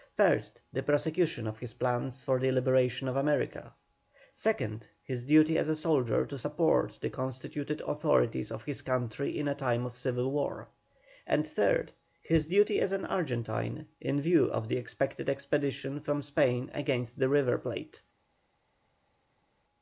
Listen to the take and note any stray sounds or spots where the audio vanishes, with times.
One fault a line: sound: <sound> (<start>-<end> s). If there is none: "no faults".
no faults